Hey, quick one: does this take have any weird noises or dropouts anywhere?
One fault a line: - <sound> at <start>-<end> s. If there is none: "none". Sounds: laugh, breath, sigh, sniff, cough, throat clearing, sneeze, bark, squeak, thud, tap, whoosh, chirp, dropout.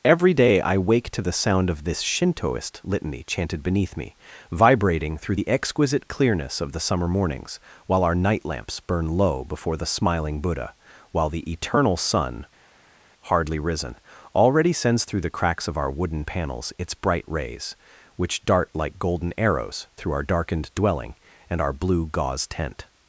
none